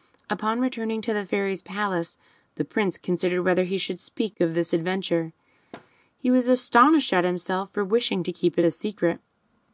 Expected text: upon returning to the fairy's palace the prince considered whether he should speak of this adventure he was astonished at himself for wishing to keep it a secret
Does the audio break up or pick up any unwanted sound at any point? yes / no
yes